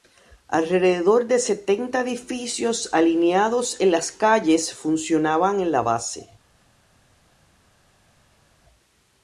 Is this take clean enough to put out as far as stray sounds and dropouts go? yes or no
yes